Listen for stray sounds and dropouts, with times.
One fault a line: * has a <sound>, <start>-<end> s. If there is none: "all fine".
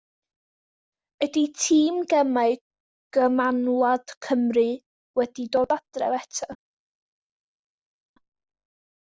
all fine